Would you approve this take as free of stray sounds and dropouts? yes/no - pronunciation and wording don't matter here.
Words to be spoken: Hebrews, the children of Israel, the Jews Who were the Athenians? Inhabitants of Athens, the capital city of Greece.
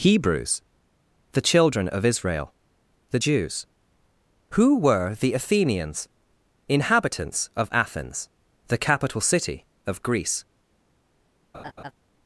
no